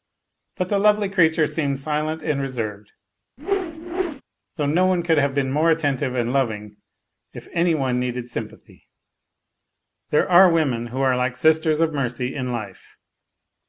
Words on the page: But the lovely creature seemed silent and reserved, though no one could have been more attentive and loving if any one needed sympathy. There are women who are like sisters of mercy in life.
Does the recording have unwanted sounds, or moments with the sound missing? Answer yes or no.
yes